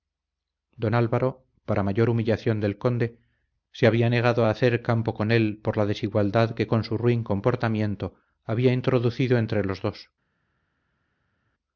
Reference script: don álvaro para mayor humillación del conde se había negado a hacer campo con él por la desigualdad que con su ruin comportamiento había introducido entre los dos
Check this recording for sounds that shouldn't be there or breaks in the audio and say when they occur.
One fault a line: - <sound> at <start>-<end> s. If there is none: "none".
none